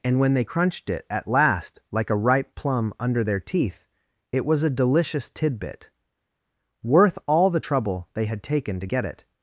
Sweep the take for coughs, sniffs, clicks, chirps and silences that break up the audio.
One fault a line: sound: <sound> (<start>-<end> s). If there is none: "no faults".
no faults